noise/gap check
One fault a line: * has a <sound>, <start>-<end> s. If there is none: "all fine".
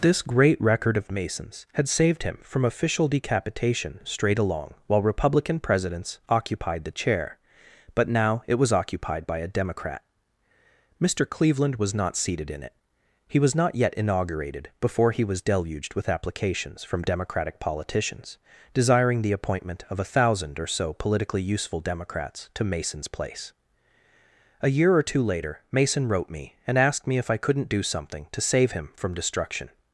all fine